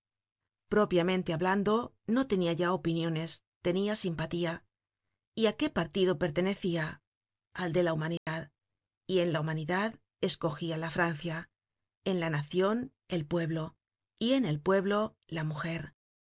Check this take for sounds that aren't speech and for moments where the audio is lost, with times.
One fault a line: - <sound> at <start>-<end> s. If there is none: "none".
- dropout at 8.2-8.3 s